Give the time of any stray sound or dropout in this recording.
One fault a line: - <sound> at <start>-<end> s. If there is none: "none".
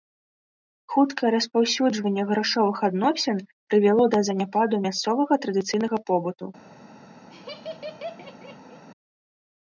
- laugh at 7.3-8.8 s